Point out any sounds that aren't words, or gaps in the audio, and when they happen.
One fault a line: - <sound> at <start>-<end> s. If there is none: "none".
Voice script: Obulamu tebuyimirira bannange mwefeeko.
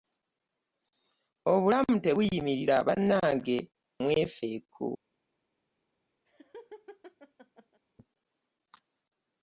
- laugh at 6.3-7.8 s